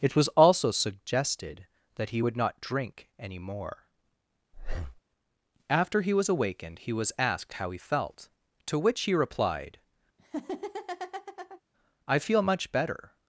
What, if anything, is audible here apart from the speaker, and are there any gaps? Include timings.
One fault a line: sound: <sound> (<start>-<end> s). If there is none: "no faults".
sound: breath (4.5-5.0 s)
sound: laugh (10.2-11.6 s)